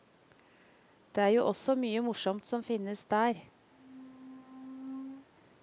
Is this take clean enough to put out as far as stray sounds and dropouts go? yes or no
no